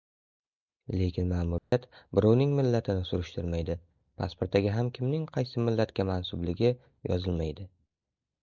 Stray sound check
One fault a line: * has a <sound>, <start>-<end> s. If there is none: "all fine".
* has a dropout, 1.6-1.7 s